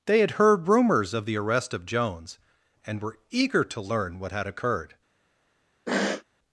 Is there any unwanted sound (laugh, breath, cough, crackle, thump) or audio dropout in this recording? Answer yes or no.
yes